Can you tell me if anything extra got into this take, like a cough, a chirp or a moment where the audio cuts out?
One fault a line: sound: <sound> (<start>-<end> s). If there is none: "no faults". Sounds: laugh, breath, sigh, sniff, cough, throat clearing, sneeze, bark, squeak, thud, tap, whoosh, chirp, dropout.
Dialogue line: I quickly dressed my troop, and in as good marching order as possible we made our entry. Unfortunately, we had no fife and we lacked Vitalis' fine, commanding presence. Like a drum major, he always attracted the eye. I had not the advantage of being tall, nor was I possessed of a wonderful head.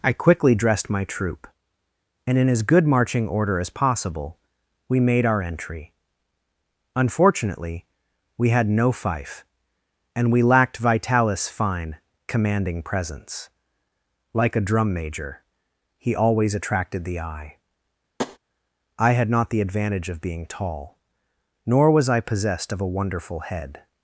sound: tap (18.2-18.4 s)